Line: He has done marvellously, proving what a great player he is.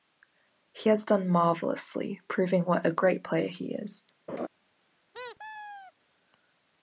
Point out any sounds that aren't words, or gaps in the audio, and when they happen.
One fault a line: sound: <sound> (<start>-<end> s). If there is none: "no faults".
sound: laugh (4.3-4.5 s)
sound: squeak (5.1-5.9 s)